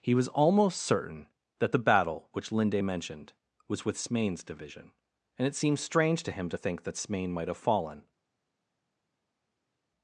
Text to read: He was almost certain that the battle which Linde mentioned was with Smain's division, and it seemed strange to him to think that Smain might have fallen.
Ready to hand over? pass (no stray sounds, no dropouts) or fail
pass